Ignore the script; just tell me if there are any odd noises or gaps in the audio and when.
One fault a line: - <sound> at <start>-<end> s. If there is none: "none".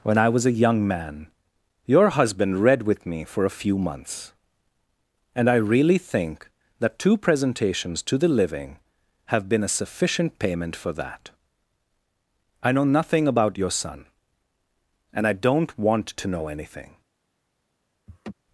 - laugh at 18.1-18.3 s